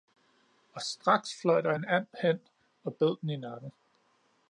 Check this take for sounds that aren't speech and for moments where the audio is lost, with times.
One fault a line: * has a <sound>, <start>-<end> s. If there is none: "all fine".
all fine